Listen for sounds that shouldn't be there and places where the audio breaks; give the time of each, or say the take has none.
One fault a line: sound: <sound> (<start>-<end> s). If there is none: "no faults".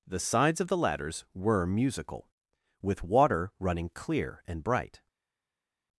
no faults